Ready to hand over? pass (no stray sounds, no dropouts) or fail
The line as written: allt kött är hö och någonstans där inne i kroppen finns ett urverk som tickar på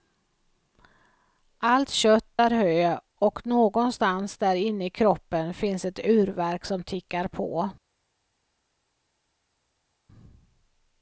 pass